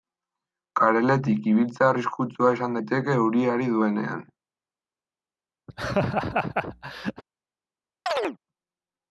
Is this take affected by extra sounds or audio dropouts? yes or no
yes